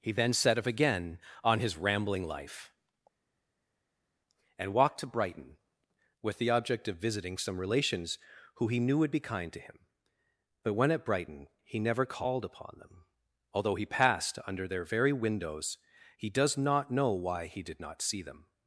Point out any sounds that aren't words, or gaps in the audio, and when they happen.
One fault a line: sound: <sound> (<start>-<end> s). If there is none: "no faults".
no faults